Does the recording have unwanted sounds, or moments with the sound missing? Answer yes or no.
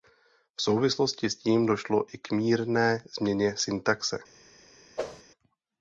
yes